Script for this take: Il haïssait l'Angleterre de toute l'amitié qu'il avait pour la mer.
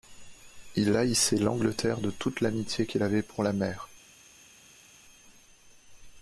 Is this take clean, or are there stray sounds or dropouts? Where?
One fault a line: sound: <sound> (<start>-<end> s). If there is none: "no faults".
no faults